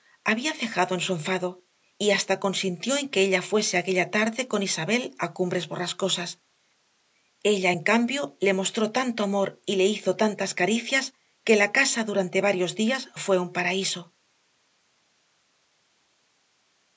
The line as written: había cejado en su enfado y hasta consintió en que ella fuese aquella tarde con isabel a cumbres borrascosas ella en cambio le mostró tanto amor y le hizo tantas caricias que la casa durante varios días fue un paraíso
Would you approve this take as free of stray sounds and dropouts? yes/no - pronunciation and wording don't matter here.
yes